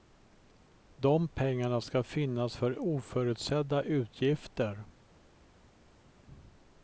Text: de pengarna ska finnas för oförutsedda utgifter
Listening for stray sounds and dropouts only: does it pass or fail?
pass